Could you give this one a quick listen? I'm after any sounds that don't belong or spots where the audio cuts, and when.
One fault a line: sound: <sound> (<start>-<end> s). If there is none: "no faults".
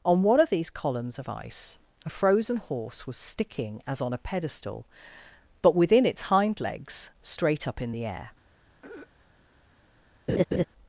sound: throat clearing (8.8-9.1 s)
sound: laugh (10.3-10.6 s)